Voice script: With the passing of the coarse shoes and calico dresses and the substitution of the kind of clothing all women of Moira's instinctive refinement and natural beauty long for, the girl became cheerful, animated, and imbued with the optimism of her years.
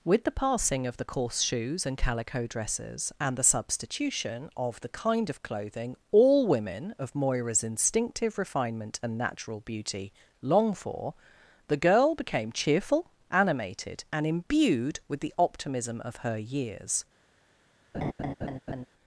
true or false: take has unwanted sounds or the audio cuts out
true